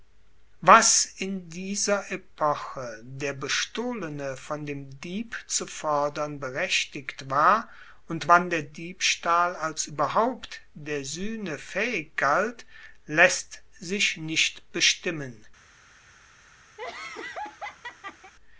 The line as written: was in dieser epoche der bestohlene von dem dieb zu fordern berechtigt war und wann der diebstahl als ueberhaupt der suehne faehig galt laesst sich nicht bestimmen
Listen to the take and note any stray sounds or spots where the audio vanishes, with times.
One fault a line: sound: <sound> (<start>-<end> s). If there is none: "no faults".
sound: laugh (16.8-18.3 s)